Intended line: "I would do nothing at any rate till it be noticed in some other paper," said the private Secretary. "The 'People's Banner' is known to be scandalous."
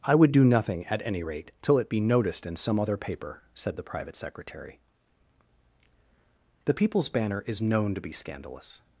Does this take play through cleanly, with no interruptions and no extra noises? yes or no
yes